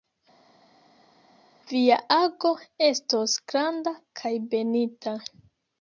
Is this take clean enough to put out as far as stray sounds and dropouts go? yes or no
yes